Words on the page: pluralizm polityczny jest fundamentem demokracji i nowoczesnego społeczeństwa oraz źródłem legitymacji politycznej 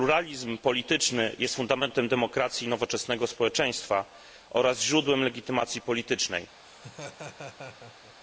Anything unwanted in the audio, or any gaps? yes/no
yes